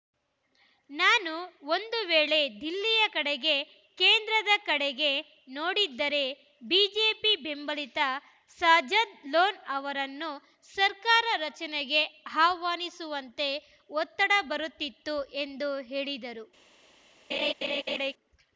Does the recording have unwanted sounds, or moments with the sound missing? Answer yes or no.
yes